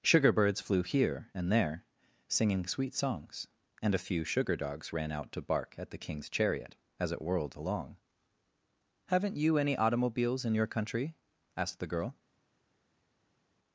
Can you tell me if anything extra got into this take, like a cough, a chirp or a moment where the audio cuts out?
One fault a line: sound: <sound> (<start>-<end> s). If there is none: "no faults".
no faults